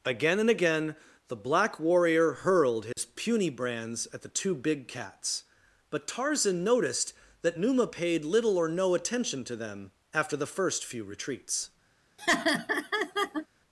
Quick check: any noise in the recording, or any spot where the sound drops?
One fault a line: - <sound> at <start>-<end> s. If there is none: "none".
- dropout at 2.9-3.0 s
- laugh at 12.2-13.5 s